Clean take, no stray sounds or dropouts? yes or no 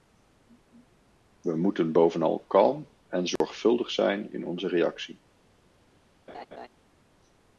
no